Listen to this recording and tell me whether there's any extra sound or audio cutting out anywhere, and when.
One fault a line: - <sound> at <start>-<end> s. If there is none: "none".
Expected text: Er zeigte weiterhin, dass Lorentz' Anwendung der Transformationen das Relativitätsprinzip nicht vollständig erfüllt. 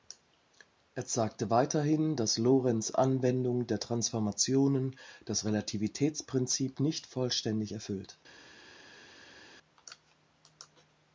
none